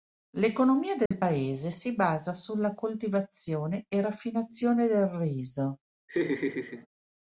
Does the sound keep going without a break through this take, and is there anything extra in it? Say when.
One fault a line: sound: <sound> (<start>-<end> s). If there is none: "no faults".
sound: dropout (1.1-1.1 s)
sound: laugh (6.1-6.9 s)